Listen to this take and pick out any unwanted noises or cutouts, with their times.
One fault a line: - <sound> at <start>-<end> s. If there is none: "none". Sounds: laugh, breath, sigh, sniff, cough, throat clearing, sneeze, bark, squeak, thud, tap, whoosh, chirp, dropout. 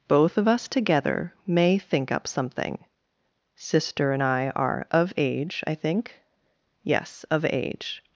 none